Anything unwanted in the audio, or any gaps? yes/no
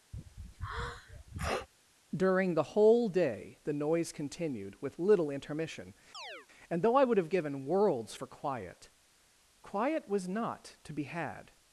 yes